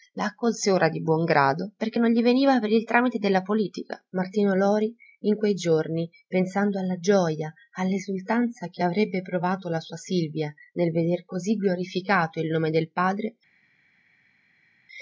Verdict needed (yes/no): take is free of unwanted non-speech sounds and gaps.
yes